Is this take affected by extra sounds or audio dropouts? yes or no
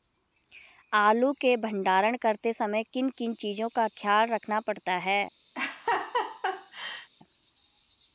yes